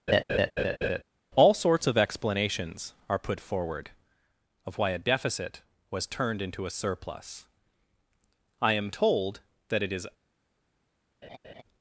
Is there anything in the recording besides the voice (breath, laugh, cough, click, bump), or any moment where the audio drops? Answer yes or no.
yes